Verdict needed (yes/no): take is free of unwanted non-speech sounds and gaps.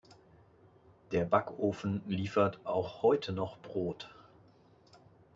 yes